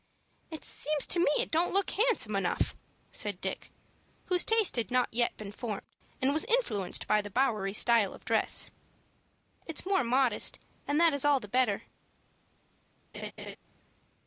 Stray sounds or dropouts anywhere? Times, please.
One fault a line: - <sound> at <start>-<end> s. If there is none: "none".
- laugh at 13.1-13.6 s